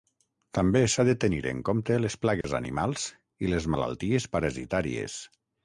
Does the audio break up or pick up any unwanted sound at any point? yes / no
yes